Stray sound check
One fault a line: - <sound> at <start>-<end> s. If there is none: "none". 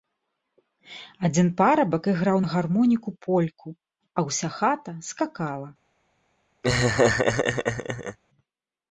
- laugh at 6.6-8.2 s